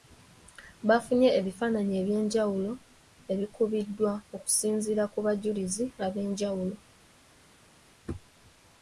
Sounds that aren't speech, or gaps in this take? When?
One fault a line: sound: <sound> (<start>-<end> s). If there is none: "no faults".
no faults